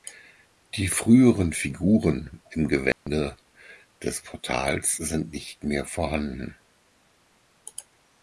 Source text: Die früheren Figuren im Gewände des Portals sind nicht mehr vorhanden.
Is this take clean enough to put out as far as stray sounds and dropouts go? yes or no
no